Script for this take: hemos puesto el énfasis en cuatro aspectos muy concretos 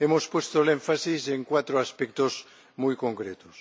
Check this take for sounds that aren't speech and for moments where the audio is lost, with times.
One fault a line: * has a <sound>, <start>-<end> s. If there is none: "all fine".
all fine